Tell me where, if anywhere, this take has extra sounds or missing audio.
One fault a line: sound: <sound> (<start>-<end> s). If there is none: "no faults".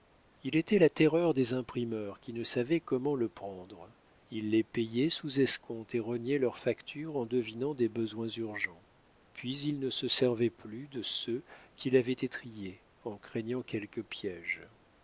no faults